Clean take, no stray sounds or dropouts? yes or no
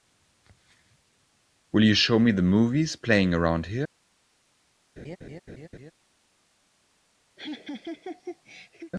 no